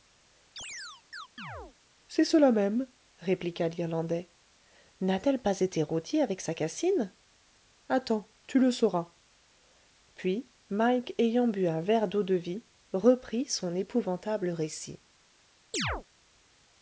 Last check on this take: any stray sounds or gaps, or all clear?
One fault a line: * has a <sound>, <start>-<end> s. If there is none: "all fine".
* has a chirp, 0.6-1.8 s
* has a chirp, 15.7-16.0 s